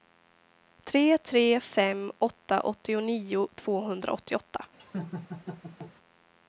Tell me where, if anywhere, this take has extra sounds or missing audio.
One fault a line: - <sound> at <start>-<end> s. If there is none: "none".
- laugh at 4.8-5.9 s